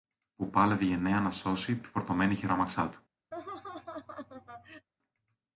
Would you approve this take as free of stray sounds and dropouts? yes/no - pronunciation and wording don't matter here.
no